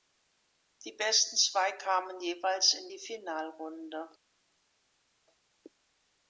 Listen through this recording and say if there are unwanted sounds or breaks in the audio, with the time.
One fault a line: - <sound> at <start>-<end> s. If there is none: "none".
none